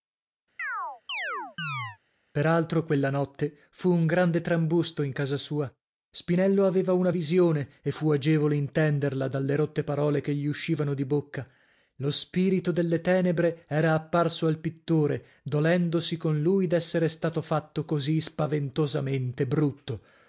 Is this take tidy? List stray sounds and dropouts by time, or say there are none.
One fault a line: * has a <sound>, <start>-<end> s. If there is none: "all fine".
* has a chirp, 0.6-2.0 s